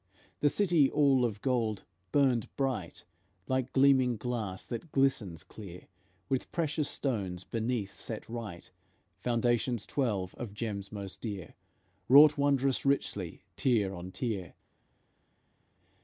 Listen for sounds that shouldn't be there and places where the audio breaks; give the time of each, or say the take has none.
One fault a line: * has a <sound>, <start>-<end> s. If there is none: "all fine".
all fine